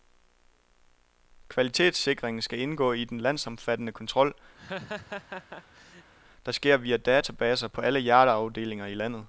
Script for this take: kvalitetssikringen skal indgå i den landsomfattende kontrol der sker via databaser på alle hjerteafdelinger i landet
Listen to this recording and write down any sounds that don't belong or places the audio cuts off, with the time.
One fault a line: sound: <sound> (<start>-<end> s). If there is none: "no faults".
sound: laugh (4.6-6.1 s)